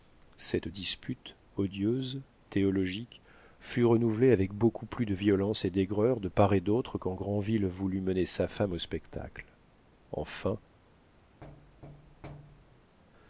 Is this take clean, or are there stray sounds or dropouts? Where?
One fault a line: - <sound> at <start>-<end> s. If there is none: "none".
- thud at 11.4-13.0 s